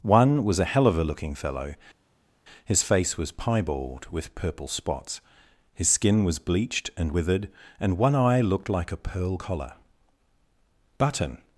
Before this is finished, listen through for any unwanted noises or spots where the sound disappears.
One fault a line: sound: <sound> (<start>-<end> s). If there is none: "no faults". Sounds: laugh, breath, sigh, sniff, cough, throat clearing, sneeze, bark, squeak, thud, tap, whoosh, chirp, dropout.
no faults